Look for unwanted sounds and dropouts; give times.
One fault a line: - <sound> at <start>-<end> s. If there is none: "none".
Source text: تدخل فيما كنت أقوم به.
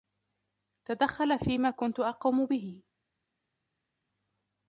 none